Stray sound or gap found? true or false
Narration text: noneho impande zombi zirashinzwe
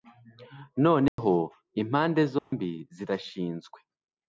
true